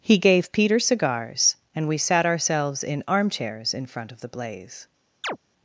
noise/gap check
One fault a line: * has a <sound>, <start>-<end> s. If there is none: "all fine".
* has a chirp, 5.2-5.4 s